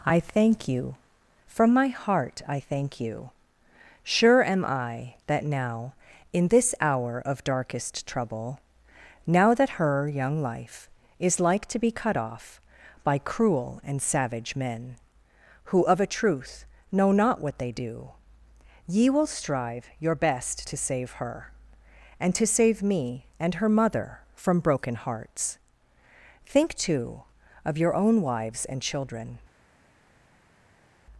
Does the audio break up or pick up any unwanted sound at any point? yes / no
no